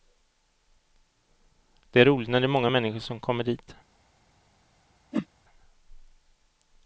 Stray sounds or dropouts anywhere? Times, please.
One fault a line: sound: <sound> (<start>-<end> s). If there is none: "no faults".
sound: whoosh (5.1-5.3 s)